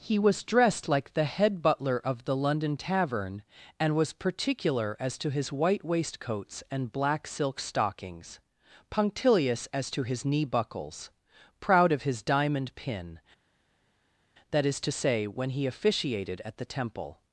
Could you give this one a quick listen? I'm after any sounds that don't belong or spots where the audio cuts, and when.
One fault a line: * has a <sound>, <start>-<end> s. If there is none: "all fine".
all fine